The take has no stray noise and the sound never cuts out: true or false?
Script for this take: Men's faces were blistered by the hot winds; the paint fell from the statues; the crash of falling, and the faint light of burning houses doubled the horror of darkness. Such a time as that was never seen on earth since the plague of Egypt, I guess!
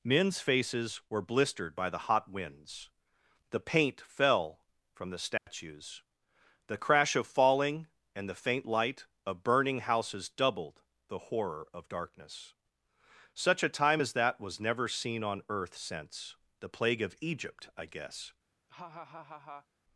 false